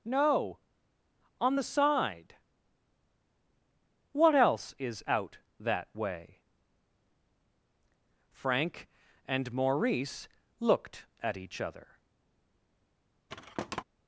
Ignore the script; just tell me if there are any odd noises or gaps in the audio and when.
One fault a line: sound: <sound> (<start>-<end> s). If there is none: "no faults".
sound: thud (13.3-13.8 s)